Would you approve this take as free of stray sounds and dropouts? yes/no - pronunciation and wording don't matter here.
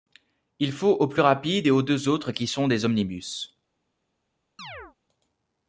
no